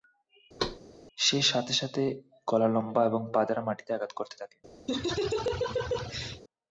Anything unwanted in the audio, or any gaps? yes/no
yes